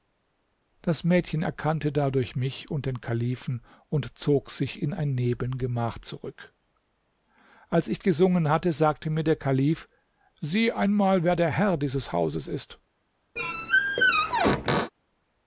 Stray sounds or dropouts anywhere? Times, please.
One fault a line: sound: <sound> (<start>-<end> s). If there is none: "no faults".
sound: squeak (13.4-14.9 s)